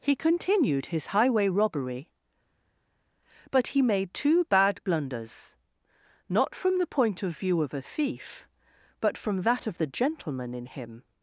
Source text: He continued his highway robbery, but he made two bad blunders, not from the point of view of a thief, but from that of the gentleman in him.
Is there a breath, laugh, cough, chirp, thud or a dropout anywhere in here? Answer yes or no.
no